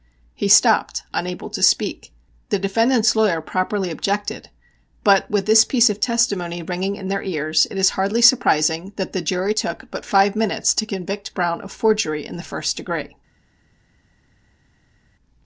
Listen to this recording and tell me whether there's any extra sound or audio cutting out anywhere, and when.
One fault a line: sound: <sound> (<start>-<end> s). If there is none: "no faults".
no faults